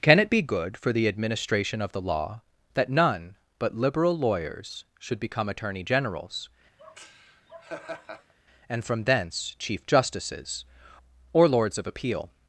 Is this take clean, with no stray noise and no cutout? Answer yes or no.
no